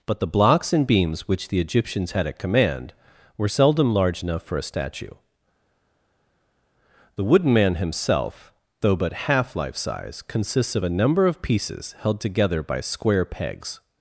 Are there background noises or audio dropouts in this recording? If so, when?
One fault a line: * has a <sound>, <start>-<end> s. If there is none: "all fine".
all fine